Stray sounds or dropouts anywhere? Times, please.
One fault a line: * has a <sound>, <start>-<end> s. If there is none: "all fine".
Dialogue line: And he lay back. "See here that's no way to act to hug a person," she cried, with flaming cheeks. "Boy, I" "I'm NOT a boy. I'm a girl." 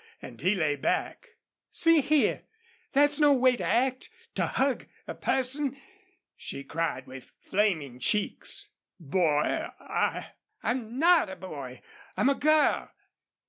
all fine